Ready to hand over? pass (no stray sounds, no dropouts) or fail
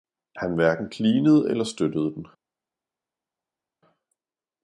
pass